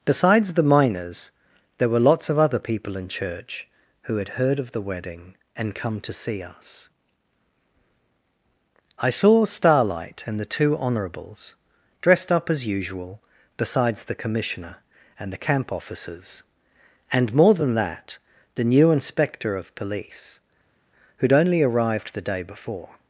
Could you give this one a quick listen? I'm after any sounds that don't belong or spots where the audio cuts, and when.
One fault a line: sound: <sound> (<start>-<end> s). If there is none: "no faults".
no faults